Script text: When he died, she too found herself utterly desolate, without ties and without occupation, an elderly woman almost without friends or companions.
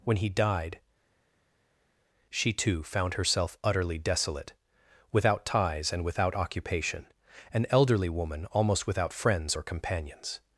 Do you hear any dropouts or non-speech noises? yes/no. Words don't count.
no